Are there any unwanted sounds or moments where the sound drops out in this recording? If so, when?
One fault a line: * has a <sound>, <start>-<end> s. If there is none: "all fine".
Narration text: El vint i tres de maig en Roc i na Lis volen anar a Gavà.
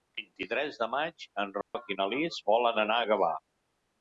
* has a dropout, 1.6-1.7 s